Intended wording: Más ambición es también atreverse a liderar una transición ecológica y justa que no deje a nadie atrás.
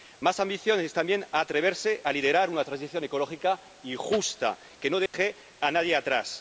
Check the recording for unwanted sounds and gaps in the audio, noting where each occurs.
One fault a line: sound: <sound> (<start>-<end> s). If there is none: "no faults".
sound: dropout (5.1-5.1 s)